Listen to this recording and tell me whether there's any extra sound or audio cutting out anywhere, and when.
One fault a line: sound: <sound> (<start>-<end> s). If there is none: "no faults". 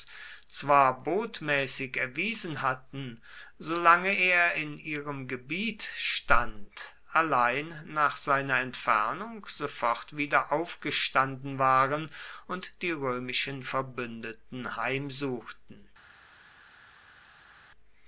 no faults